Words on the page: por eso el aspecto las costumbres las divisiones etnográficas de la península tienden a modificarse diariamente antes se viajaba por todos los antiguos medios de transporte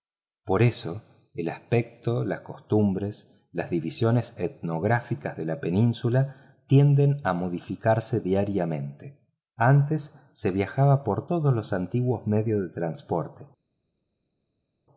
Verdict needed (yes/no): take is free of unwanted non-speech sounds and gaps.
yes